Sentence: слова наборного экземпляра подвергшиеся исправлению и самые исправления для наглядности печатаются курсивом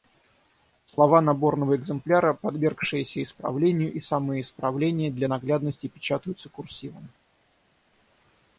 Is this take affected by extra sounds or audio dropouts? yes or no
no